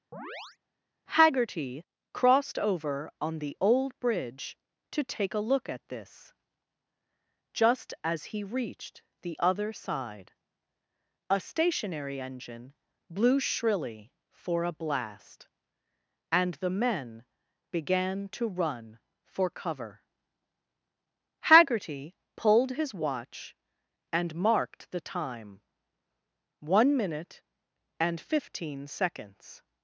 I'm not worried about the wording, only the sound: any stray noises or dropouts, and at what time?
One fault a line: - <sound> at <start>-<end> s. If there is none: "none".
- chirp at 0.1-0.6 s